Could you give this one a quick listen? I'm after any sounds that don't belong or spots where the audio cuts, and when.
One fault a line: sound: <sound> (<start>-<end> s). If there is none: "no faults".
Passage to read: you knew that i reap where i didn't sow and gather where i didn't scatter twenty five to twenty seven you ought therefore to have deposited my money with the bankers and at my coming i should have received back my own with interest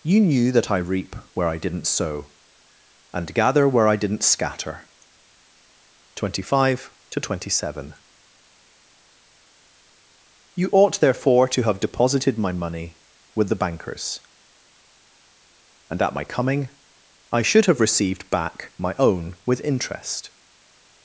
no faults